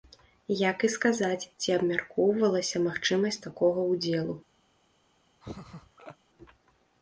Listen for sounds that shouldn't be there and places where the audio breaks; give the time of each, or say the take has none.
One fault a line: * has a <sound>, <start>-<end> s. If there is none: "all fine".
* has a laugh, 5.4-6.2 s